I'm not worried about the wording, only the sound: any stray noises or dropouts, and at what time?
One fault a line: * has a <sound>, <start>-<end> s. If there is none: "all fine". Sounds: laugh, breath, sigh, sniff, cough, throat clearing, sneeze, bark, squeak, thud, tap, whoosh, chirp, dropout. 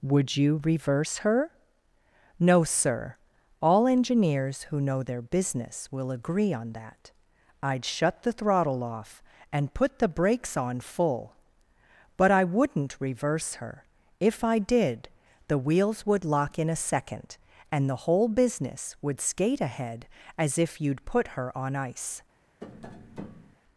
* has a tap, 22.6-23.6 s